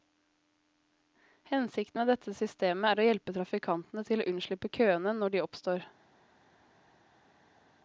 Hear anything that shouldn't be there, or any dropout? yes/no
no